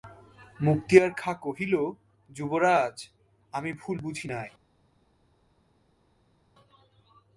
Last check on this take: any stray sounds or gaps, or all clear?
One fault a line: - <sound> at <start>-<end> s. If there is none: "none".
none